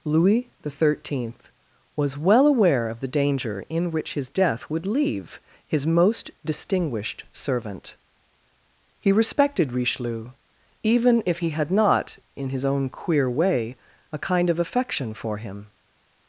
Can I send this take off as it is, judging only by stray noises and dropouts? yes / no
yes